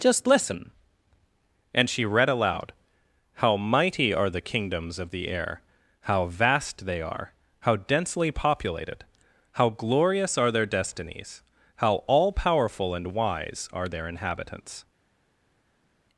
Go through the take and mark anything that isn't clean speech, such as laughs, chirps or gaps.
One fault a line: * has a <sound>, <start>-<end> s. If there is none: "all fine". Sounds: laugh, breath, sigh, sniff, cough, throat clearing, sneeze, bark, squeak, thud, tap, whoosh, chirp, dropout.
all fine